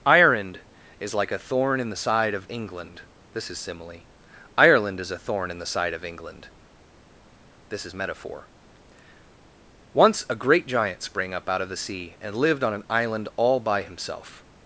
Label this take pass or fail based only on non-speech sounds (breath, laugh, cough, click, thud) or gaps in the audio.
pass